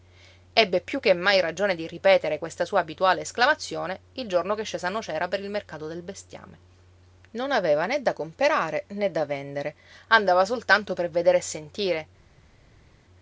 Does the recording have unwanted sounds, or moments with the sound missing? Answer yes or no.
no